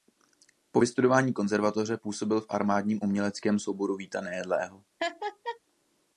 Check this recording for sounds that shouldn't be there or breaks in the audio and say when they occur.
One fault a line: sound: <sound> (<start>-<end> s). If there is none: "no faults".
sound: laugh (5.0-5.6 s)